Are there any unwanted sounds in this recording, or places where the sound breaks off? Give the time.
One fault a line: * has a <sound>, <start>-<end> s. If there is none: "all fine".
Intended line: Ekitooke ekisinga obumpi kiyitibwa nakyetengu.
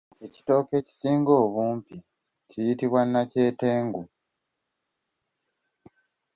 all fine